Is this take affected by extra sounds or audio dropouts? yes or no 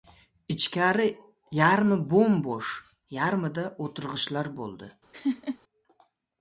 yes